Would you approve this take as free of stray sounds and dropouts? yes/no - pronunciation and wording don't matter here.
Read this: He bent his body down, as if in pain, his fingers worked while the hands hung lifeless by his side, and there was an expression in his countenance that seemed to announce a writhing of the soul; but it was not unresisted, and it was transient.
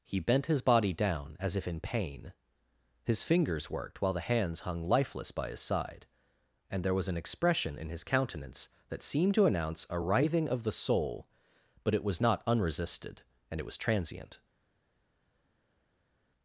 yes